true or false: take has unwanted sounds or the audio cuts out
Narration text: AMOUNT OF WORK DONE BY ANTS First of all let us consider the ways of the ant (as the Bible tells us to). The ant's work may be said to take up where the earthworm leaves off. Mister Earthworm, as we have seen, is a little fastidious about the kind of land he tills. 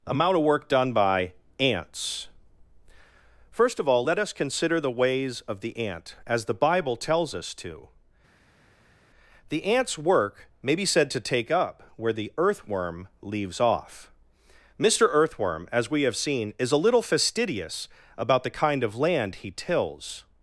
false